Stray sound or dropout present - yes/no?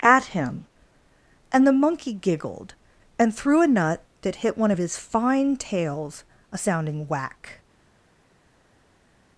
no